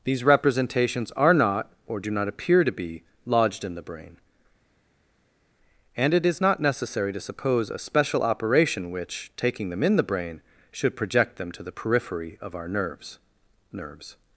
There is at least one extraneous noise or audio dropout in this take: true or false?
false